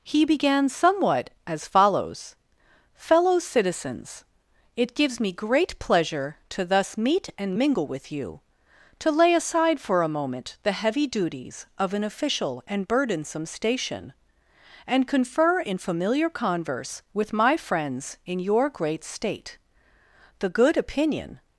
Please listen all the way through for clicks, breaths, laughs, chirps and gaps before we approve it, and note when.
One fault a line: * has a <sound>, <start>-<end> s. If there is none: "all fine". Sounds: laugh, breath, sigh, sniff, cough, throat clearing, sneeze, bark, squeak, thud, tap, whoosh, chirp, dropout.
all fine